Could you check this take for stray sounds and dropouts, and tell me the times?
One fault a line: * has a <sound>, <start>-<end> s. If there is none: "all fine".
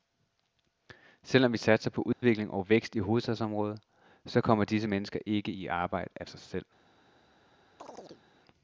* has a dropout, 2.1-2.2 s
* has a chirp, 7.8-8.2 s